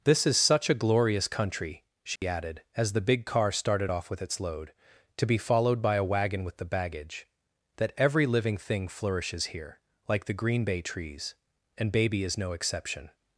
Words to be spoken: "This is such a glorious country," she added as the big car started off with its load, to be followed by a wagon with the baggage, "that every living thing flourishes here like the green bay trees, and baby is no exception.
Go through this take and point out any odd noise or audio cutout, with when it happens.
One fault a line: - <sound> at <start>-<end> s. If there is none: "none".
- dropout at 2.2-2.2 s